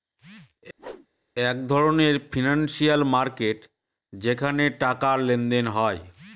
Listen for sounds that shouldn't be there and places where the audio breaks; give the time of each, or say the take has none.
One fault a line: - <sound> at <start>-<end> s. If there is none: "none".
- whoosh at 0.8-1.1 s